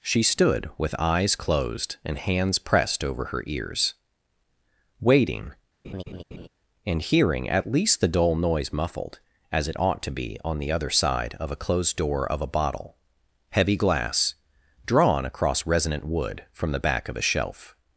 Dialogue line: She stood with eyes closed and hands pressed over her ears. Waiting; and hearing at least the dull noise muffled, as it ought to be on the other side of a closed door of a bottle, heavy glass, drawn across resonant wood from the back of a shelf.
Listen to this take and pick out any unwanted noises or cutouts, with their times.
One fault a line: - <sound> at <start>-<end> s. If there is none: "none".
- laugh at 5.8-6.5 s